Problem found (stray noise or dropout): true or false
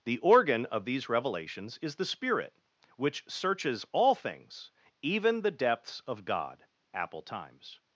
false